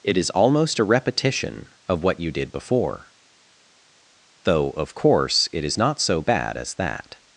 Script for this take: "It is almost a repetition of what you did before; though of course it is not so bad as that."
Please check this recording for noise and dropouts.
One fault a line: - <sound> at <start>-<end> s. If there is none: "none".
none